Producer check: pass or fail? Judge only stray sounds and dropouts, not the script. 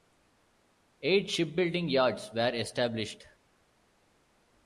pass